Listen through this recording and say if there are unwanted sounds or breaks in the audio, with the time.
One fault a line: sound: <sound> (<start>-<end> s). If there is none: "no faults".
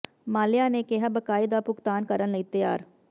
no faults